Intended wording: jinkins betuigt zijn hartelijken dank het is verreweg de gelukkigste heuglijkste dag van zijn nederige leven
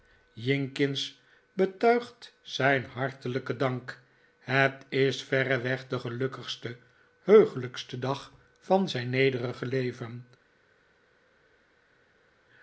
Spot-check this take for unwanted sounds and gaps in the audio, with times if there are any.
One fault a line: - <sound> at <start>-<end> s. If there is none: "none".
none